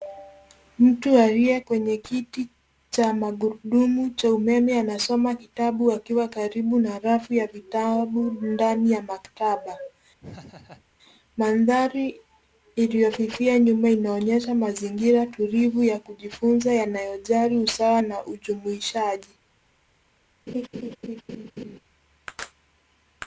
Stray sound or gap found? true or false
true